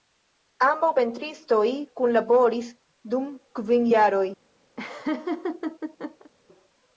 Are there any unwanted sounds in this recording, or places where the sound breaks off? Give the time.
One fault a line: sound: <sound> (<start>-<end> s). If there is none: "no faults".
sound: laugh (4.8-6.3 s)